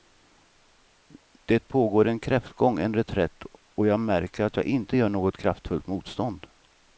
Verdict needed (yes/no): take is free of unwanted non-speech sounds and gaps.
yes